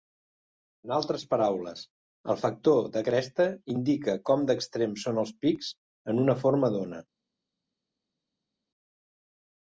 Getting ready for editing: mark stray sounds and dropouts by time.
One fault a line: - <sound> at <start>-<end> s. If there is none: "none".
none